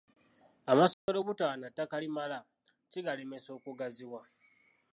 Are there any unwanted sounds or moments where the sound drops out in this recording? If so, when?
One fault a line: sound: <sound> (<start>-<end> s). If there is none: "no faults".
sound: dropout (0.9-1.1 s)